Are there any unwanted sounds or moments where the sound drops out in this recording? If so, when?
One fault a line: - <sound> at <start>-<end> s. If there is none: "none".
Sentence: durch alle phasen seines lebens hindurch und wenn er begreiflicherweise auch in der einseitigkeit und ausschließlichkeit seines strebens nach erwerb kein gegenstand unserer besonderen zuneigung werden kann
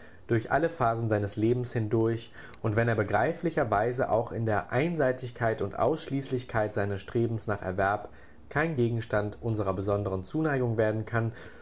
none